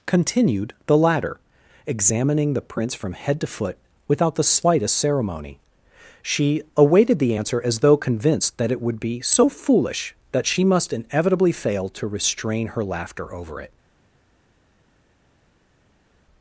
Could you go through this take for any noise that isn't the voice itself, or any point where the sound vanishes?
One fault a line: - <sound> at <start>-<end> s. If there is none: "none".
none